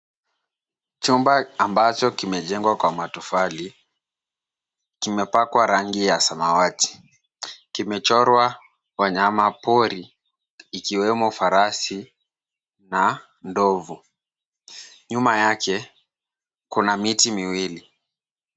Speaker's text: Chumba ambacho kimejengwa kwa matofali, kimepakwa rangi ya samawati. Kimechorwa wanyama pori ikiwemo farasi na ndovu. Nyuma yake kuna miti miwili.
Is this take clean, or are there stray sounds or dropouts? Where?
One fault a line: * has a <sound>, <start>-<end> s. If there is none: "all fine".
all fine